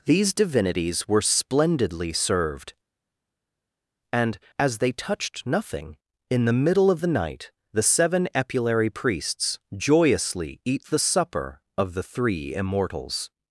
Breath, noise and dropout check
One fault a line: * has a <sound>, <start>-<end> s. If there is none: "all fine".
all fine